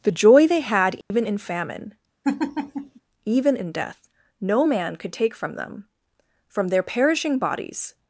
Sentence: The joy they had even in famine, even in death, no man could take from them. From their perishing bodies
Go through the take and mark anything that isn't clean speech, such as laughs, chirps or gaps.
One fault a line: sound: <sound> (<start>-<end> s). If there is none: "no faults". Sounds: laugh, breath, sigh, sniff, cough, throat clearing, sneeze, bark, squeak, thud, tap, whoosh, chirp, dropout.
sound: dropout (1.0-1.1 s)
sound: laugh (2.2-3.0 s)